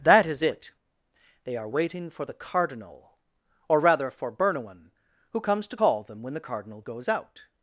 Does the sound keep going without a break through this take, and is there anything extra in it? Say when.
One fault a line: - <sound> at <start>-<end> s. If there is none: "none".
none